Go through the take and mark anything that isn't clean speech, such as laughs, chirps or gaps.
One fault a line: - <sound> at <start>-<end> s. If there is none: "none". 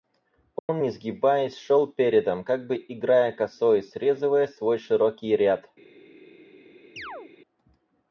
- dropout at 0.6-0.7 s
- chirp at 7.0-7.3 s